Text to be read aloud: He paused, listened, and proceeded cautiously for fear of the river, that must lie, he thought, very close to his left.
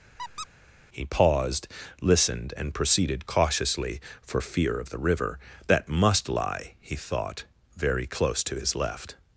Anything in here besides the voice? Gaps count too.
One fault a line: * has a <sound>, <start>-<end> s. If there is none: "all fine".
* has a squeak, 0.2-0.5 s